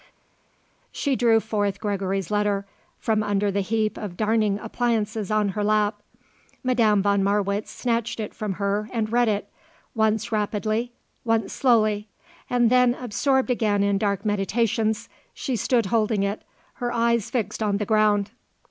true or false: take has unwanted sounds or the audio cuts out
false